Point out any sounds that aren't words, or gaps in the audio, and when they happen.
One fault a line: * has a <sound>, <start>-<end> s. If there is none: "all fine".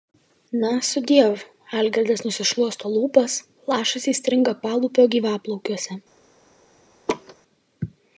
* has a laugh, 7.1-7.4 s